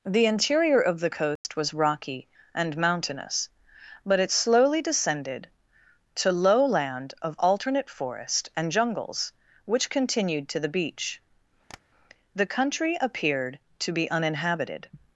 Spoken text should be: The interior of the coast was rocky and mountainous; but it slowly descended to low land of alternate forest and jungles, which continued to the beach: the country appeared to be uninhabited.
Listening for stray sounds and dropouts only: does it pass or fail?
fail